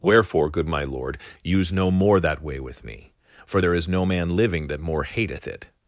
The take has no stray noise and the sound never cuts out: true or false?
true